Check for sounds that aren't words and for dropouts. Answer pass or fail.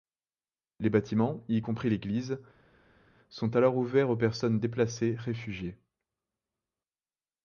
pass